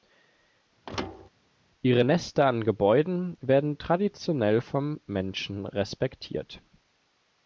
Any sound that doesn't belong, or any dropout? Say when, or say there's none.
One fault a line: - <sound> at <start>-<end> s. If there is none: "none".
- thud at 0.9-1.3 s